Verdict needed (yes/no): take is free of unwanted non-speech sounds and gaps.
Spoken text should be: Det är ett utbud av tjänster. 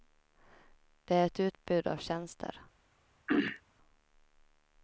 no